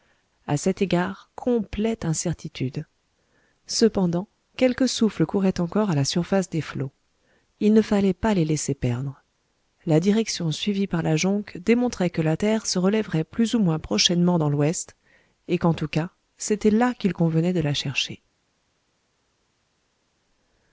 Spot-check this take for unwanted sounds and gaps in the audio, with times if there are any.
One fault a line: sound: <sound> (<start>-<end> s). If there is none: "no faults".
no faults